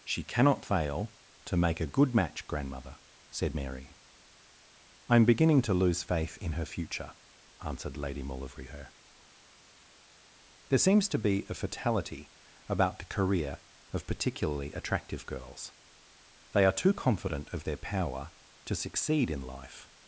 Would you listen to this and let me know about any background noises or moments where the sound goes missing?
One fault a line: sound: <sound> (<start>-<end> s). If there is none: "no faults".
no faults